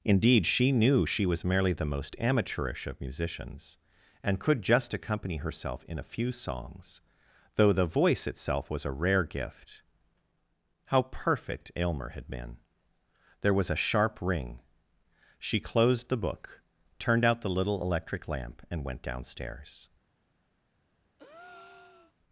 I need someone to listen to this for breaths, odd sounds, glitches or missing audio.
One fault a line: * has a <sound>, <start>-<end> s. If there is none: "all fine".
* has a breath, 21.2-22.1 s